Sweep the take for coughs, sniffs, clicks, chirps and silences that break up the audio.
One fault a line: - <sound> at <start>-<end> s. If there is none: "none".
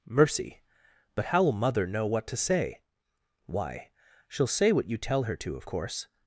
none